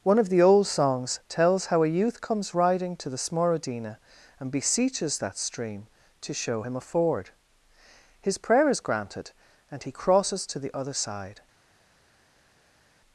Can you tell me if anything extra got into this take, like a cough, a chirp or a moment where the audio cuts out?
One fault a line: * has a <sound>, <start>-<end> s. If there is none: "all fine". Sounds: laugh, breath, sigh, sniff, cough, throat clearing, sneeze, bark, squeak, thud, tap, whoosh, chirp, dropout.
all fine